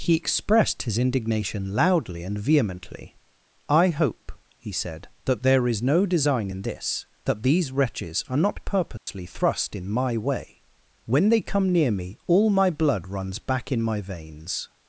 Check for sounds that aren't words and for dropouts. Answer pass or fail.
fail